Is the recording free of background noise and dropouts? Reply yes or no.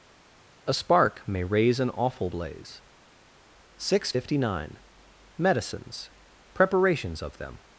yes